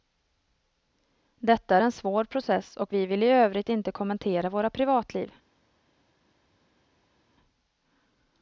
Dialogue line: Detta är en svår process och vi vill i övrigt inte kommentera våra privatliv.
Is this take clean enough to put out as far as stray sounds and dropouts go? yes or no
yes